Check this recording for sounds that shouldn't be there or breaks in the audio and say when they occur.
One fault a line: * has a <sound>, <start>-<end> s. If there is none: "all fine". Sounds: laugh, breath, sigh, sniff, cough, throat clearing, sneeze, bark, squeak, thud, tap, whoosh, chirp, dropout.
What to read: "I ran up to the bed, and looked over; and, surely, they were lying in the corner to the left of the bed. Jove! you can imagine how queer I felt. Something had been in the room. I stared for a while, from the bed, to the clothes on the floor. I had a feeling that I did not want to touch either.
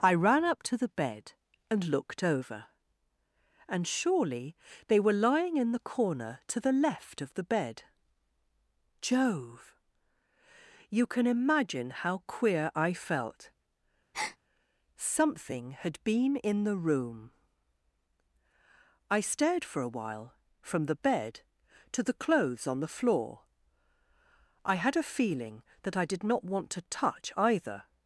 * has a breath, 14.1-14.4 s